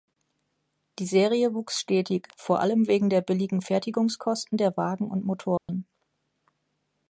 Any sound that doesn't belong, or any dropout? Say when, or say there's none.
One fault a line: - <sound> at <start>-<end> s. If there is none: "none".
- dropout at 5.6-5.7 s